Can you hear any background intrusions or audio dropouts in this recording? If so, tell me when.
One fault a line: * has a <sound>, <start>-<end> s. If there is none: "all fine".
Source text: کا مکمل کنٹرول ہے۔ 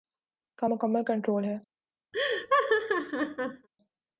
* has a laugh, 2.1-3.7 s